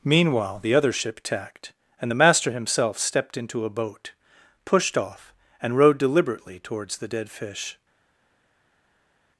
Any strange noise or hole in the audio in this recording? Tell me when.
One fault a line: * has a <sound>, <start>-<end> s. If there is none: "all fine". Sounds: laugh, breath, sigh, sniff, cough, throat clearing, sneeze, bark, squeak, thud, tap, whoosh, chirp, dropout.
all fine